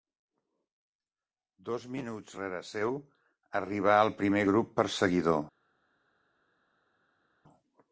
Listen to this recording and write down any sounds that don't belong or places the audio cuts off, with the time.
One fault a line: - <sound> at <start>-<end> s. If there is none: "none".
none